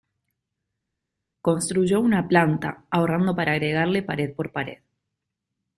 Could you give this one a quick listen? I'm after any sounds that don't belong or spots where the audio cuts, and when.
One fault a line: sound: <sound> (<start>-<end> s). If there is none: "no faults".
no faults